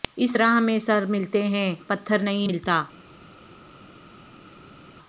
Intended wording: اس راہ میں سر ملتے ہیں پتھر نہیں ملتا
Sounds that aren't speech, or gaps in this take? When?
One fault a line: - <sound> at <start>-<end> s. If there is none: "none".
none